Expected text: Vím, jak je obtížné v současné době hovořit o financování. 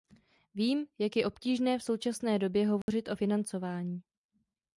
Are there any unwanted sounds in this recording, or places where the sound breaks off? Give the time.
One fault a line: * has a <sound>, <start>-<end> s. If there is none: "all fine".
* has a dropout, 2.8-2.9 s